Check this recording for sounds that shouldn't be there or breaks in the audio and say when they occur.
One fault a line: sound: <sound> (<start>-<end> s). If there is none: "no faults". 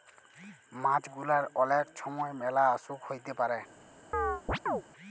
sound: chirp (4.1-4.8 s)